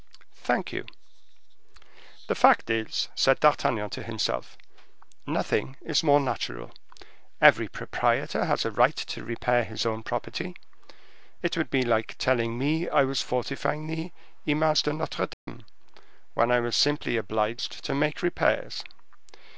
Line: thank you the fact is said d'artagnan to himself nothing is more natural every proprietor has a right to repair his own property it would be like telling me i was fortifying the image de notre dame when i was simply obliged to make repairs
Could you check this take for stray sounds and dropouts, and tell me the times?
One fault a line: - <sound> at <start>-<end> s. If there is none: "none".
- dropout at 15.3-15.5 s